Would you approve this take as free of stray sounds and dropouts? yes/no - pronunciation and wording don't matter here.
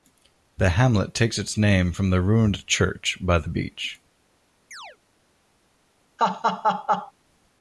no